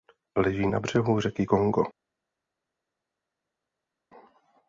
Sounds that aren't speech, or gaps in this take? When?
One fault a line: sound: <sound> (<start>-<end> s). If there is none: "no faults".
no faults